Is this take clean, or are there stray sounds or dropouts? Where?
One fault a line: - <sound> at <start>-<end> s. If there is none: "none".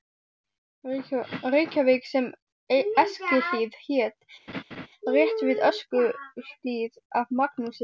- laugh at 4.5-4.9 s